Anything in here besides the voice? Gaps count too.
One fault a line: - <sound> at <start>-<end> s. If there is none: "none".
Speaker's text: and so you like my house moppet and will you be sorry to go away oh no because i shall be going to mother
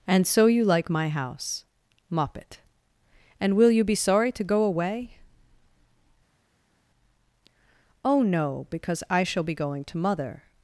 none